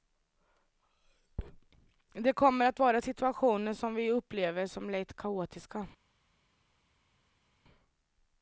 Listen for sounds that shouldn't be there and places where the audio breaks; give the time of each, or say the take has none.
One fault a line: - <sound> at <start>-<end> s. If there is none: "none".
none